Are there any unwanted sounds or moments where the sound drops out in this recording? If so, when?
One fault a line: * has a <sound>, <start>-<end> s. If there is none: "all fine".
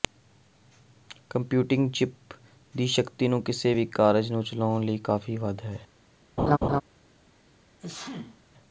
* has a laugh, 6.4-6.8 s
* has a sneeze, 7.8-8.4 s